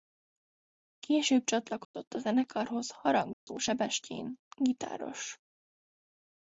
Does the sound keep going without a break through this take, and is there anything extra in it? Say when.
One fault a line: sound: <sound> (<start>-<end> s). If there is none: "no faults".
sound: dropout (1.8-1.9 s)
sound: dropout (3.3-3.5 s)